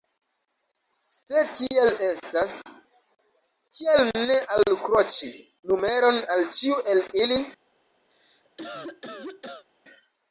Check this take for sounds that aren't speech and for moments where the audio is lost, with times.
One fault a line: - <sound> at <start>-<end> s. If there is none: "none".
- cough at 8.1-9.7 s